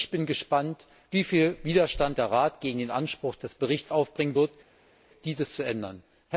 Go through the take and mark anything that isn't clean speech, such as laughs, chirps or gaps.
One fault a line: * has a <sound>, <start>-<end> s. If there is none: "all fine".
all fine